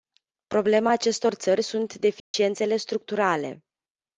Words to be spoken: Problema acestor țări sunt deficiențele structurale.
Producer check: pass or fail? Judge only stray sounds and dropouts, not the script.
fail